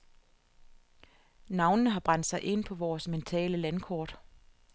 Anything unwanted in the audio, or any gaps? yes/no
no